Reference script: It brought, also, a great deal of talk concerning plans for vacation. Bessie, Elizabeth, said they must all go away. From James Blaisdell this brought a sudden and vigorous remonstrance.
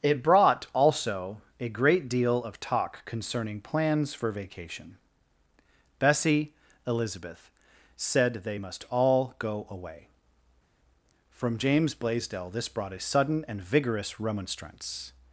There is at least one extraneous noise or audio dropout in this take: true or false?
false